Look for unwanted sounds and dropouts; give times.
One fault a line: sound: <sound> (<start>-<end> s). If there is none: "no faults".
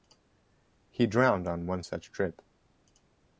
no faults